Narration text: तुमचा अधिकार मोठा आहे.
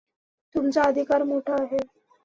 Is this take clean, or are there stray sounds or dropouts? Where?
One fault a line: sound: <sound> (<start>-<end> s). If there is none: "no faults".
no faults